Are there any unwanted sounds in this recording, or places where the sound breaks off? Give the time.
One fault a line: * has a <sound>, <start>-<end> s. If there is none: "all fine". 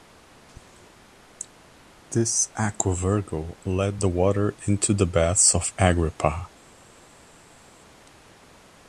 all fine